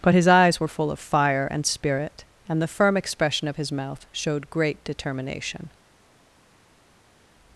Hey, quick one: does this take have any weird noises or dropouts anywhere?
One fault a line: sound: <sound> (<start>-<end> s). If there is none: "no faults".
no faults